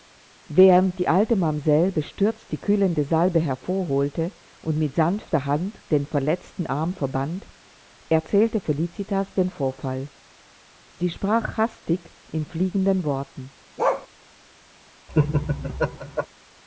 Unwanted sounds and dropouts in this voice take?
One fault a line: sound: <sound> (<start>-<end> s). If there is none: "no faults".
sound: bark (13.8-14.1 s)
sound: laugh (15.1-16.3 s)